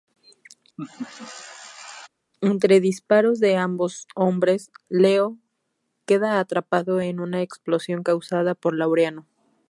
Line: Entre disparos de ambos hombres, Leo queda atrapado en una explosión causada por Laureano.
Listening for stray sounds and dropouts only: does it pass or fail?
fail